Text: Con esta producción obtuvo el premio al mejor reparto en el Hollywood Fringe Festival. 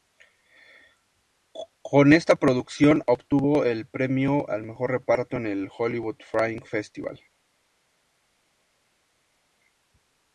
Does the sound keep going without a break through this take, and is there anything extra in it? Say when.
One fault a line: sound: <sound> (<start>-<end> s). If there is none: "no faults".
no faults